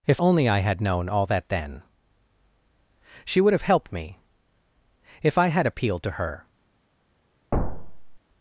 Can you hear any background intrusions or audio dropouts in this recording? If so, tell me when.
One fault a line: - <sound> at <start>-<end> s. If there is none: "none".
- thud at 7.5-8.2 s